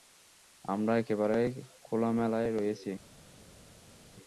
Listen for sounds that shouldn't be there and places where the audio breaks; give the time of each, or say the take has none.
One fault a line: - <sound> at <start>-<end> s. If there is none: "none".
none